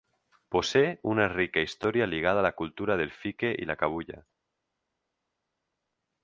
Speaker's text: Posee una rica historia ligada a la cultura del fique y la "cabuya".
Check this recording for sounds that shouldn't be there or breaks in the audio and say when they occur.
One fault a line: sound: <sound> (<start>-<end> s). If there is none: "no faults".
no faults